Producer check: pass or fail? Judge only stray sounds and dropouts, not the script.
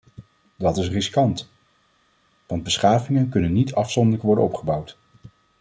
pass